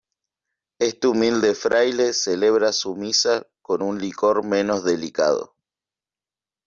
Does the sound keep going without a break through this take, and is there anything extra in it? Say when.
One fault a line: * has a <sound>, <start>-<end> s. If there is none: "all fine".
all fine